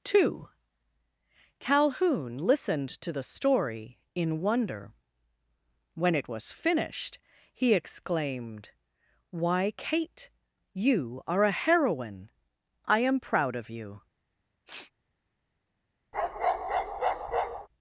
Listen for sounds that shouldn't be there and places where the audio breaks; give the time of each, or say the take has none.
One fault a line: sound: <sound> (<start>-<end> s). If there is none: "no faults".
sound: sniff (14.7-14.9 s)
sound: bark (16.1-17.7 s)